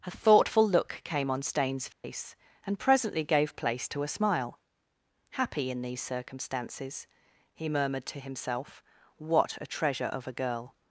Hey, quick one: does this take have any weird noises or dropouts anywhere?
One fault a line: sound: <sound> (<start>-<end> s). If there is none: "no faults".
sound: dropout (1.9-2.0 s)